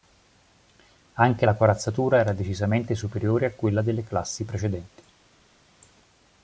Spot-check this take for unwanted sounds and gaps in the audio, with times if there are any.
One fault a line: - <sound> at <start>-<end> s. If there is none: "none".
none